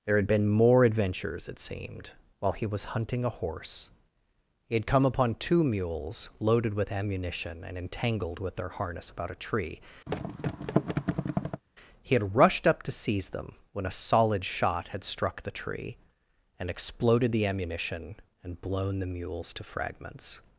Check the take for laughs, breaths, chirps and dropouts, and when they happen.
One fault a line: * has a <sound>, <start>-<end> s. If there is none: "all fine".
* has a thud, 10.1-11.6 s